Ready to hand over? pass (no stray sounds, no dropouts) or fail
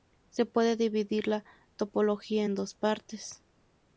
pass